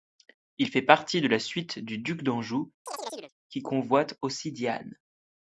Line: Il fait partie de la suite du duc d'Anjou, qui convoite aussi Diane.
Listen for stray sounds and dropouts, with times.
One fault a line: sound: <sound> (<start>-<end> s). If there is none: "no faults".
sound: chirp (2.9-3.3 s)